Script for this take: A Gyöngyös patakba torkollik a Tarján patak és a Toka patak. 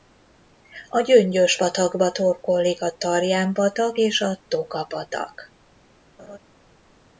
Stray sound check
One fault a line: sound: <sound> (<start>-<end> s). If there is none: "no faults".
sound: laugh (6.2-6.4 s)